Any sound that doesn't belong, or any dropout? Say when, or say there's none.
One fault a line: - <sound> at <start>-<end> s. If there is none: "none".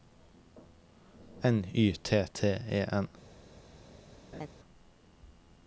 - laugh at 4.3-4.5 s